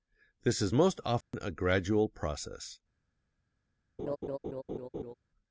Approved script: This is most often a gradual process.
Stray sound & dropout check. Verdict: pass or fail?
fail